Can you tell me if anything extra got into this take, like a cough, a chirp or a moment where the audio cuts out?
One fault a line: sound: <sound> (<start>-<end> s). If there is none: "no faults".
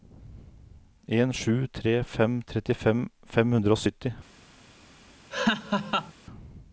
sound: laugh (5.3-6.1 s)